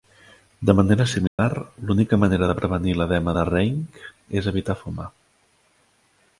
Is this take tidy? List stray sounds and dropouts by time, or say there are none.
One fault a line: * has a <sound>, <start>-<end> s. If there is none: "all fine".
* has a dropout, 1.3-1.4 s